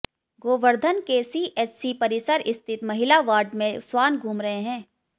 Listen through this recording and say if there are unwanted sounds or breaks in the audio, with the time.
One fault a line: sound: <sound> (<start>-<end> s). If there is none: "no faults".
no faults